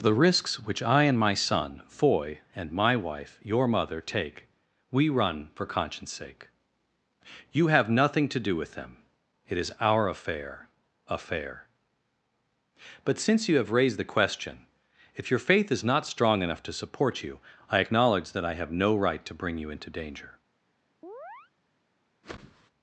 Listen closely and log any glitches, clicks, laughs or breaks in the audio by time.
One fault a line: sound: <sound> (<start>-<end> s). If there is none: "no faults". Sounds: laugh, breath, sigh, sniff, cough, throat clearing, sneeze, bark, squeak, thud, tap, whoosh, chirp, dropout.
sound: chirp (21.0-21.5 s)
sound: whoosh (22.2-22.7 s)